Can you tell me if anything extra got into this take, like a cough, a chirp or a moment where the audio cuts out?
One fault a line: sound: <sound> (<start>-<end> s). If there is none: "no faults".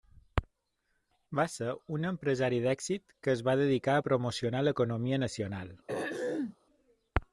sound: throat clearing (5.9-6.6 s)